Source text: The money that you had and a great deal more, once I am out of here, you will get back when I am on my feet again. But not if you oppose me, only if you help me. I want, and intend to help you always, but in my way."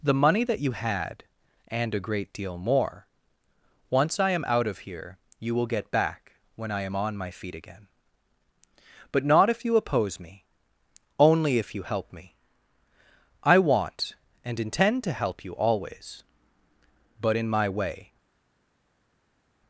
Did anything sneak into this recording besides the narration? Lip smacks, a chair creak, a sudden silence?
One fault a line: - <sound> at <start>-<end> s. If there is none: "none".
none